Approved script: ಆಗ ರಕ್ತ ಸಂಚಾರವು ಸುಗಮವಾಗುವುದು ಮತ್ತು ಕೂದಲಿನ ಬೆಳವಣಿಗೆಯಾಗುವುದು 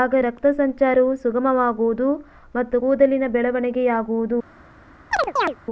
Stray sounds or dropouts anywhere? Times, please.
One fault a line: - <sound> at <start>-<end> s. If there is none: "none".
- chirp at 5.1-5.6 s